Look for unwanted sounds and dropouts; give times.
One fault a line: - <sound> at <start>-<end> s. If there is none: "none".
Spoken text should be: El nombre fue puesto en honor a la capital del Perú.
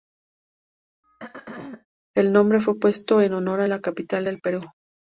- throat clearing at 1.0-1.9 s